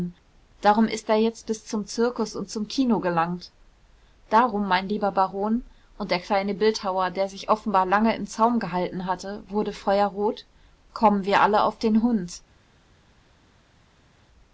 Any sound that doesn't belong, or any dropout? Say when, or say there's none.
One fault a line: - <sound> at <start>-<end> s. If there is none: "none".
none